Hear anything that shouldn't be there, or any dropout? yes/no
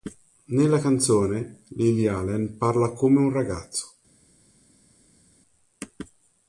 no